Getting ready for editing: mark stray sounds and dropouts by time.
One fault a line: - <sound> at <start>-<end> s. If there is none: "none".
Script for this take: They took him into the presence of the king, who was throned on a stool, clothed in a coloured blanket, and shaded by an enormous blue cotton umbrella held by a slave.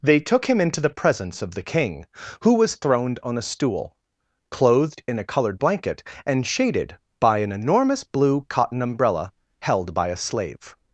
none